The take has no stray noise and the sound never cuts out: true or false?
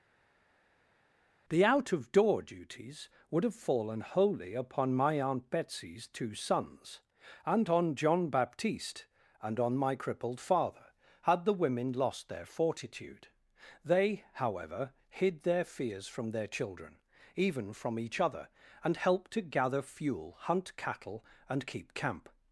true